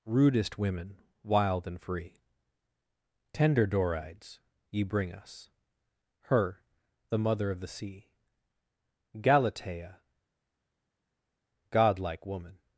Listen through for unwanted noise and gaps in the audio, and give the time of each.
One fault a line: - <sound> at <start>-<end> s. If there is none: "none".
none